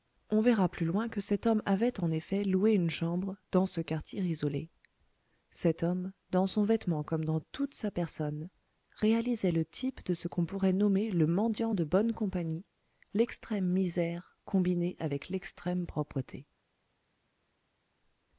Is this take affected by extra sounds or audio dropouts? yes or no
no